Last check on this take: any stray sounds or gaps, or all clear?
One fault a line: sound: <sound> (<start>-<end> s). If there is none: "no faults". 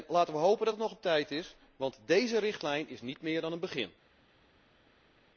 no faults